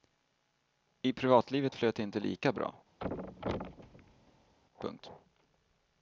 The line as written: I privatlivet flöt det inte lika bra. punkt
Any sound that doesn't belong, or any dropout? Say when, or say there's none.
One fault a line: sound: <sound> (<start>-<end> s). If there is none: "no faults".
sound: thud (3.0-4.5 s)